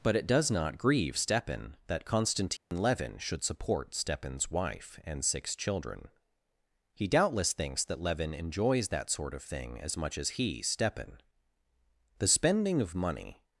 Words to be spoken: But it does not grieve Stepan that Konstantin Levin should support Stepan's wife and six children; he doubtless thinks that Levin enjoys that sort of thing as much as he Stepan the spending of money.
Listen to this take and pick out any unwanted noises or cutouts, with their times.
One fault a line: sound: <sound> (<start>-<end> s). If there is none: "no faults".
sound: dropout (2.6-2.7 s)